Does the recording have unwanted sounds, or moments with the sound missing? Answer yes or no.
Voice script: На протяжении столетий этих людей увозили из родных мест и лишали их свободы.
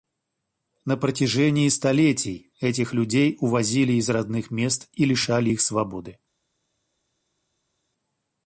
no